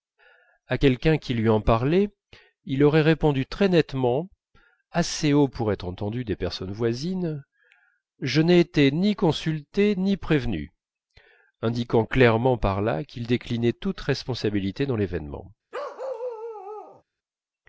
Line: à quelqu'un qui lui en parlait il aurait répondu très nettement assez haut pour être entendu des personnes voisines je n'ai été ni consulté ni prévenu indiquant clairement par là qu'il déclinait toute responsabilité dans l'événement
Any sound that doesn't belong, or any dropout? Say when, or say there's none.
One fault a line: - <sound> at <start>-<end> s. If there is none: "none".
- bark at 15.7-17.0 s